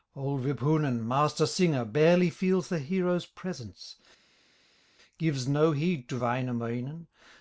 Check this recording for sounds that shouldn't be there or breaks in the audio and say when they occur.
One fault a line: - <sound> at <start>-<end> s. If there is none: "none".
none